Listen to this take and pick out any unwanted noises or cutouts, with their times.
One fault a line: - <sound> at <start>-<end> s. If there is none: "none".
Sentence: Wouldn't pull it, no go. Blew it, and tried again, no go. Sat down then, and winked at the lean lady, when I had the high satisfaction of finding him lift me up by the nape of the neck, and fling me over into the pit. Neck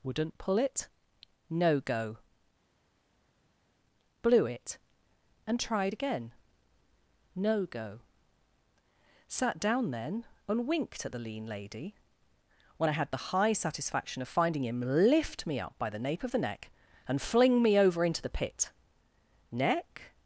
none